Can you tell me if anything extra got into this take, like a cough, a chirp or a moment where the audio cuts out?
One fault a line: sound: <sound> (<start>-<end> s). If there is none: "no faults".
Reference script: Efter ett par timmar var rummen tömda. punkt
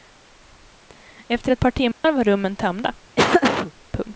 sound: dropout (1.9-2.0 s)
sound: laugh (3.2-3.7 s)